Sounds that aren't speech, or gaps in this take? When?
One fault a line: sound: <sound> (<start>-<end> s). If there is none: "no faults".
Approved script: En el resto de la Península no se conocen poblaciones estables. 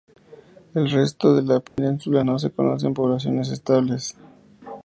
sound: dropout (1.7-1.8 s)